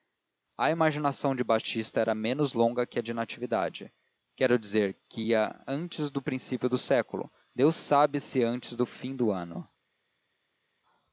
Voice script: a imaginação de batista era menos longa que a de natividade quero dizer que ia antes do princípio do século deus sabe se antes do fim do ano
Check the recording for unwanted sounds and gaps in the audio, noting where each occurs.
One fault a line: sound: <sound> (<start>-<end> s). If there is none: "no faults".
no faults